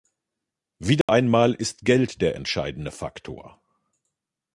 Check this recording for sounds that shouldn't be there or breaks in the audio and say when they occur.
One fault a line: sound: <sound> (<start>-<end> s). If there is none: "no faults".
sound: dropout (1.0-1.1 s)